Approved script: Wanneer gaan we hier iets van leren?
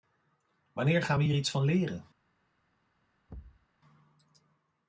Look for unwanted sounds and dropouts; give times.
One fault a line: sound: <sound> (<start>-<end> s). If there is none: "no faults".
sound: thud (3.3-3.7 s)